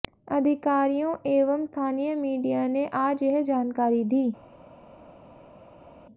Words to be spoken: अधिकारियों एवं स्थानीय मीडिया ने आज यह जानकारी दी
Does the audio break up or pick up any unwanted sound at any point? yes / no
no